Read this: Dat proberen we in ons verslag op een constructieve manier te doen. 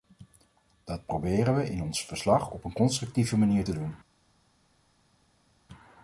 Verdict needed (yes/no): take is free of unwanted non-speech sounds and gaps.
yes